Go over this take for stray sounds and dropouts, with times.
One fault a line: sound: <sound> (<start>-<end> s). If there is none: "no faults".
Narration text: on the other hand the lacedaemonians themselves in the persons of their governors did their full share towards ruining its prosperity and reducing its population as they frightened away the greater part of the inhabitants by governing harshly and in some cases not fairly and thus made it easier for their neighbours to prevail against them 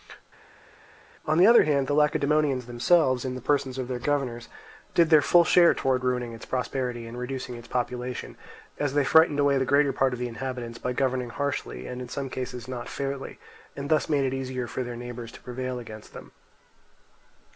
no faults